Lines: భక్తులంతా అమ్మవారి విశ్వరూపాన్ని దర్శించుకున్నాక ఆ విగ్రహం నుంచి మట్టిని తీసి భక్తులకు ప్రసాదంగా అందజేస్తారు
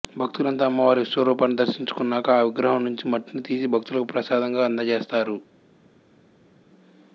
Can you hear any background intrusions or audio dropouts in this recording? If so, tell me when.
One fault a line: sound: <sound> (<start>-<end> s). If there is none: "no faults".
no faults